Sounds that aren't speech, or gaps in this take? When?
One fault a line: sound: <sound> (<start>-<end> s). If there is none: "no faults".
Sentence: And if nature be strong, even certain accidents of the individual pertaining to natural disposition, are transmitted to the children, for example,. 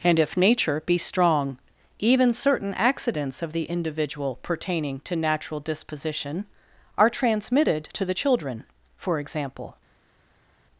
no faults